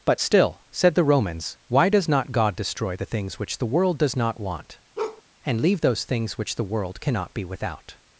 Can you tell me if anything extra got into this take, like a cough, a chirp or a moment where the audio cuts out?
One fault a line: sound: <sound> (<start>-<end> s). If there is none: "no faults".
sound: bark (5.0-5.2 s)